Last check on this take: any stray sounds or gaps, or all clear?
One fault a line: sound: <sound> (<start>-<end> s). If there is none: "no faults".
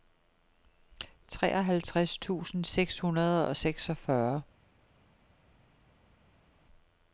no faults